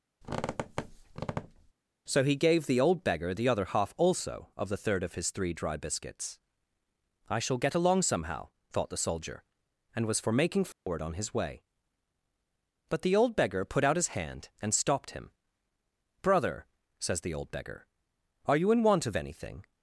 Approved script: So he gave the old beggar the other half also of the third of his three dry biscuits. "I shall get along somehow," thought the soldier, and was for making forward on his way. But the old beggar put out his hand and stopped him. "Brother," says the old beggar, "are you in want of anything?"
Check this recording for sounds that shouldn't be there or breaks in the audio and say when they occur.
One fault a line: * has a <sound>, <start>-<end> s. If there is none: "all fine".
* has a squeak, 0.2-1.7 s
* has a dropout, 10.7-10.9 s